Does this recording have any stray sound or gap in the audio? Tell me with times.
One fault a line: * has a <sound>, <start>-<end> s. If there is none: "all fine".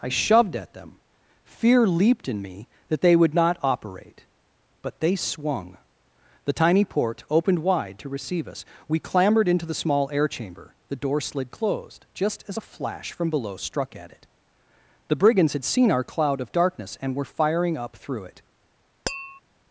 * has a tap, 19.1-19.4 s